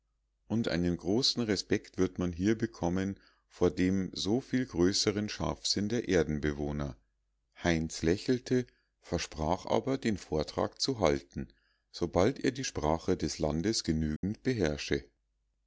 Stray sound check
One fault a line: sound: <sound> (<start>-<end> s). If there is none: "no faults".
sound: dropout (14.2-14.2 s)